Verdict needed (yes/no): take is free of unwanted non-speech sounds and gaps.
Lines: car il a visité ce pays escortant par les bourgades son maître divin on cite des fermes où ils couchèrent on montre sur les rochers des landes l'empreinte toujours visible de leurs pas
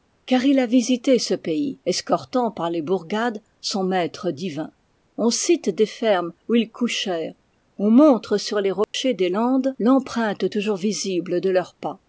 no